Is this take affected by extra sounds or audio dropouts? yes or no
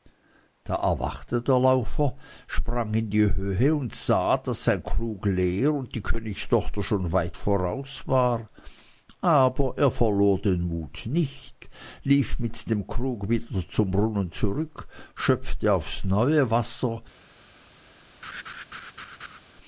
yes